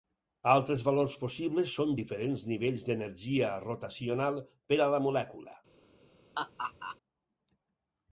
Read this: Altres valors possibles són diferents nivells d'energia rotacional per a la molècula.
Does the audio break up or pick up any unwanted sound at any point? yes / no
yes